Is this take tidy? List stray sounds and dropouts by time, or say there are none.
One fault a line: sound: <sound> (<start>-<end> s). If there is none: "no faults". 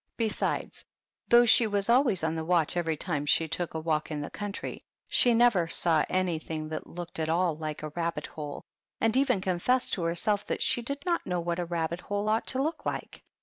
no faults